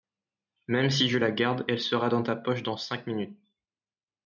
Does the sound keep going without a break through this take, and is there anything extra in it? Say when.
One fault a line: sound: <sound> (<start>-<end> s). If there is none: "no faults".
no faults